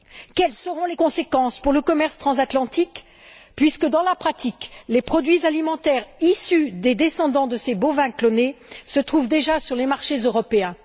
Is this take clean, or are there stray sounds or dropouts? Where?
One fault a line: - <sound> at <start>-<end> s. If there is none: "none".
none